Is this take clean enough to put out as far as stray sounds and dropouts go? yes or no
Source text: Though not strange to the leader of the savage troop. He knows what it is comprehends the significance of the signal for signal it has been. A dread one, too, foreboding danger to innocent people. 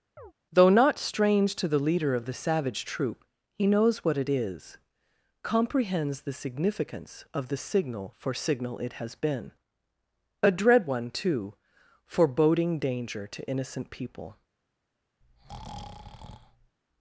no